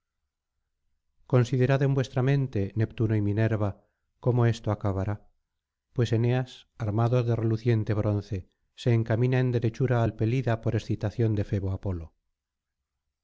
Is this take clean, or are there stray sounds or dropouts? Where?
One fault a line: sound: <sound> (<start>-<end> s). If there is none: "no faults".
no faults